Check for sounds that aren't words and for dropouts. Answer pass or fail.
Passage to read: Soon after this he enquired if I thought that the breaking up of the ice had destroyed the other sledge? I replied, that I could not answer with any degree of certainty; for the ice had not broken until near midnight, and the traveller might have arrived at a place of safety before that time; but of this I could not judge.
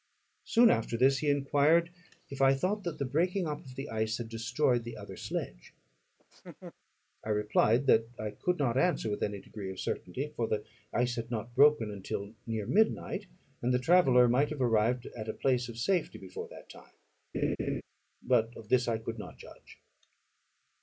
fail